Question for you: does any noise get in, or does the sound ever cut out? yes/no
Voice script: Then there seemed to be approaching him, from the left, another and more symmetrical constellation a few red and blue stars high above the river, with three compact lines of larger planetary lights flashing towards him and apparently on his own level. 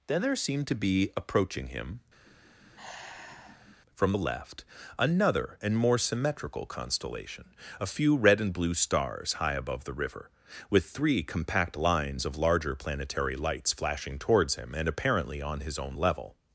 yes